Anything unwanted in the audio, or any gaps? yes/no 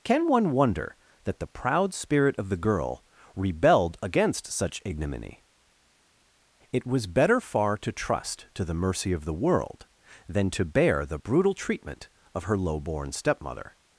no